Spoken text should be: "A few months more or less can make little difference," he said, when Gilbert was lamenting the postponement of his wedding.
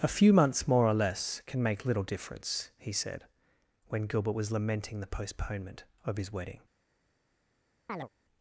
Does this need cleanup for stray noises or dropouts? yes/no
yes